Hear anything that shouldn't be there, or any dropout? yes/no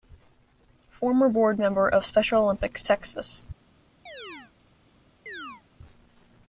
yes